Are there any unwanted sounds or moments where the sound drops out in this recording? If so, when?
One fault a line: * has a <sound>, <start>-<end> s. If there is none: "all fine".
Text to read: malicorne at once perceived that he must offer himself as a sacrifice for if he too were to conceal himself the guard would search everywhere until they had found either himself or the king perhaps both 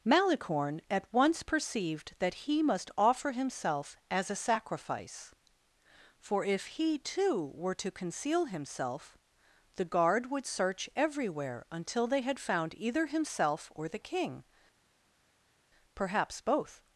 all fine